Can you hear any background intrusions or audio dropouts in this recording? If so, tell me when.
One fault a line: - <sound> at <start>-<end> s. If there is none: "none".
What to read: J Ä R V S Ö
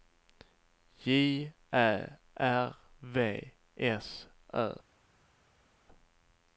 none